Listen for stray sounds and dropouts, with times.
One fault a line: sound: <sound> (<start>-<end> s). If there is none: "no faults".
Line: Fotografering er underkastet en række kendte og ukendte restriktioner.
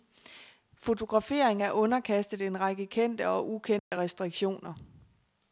sound: dropout (3.8-3.9 s)